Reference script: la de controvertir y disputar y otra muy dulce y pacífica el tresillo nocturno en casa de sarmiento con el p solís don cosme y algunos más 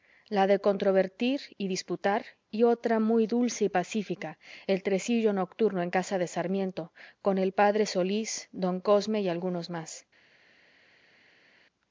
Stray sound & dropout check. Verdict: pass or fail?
pass